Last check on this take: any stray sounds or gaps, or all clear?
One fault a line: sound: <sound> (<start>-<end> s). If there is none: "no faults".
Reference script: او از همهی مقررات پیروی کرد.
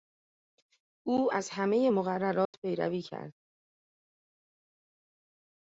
sound: dropout (2.5-2.5 s)